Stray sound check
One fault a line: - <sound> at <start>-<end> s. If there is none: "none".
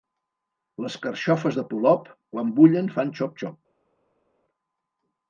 none